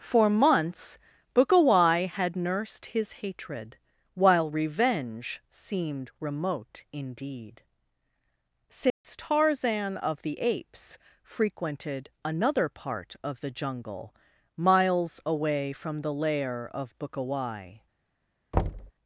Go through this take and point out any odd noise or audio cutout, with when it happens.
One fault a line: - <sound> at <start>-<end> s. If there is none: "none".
- dropout at 8.9-9.0 s
- thud at 18.5-18.9 s